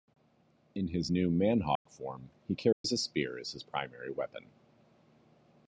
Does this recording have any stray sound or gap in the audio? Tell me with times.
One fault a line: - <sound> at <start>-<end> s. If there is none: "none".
- dropout at 1.8-1.9 s
- dropout at 2.7-2.8 s